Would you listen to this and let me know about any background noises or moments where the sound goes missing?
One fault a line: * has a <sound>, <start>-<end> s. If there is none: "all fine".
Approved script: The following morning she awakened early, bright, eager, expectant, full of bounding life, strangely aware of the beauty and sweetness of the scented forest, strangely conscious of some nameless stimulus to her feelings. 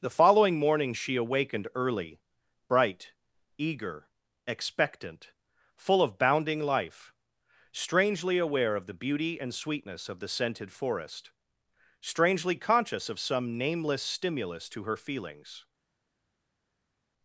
all fine